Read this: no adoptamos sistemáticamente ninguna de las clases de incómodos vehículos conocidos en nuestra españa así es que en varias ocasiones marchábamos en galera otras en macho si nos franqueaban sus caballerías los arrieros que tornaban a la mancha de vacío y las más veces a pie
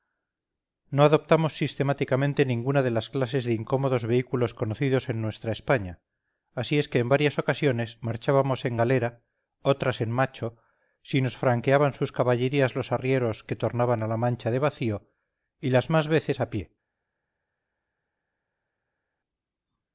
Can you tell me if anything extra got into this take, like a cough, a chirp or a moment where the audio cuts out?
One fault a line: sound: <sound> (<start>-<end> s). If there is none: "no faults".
no faults